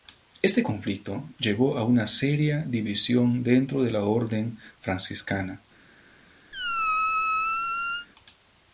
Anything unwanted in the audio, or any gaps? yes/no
yes